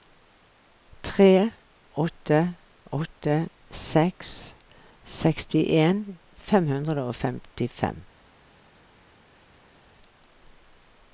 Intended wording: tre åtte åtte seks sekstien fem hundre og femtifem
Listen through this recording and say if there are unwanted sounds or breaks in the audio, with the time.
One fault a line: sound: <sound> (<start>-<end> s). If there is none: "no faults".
no faults